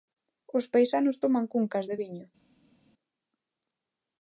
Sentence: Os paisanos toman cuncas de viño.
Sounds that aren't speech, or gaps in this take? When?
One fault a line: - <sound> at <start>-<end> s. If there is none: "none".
none